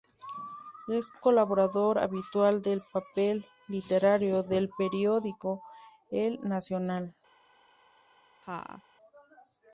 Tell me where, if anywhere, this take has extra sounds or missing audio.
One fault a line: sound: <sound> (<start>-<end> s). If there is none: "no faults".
sound: laugh (8.4-8.8 s)